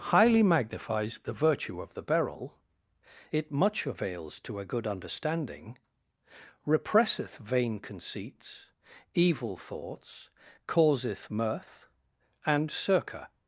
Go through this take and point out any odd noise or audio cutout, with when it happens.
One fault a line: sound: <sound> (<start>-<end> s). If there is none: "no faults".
no faults